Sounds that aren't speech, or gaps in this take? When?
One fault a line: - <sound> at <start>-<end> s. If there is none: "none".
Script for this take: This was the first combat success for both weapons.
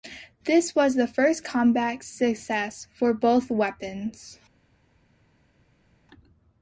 none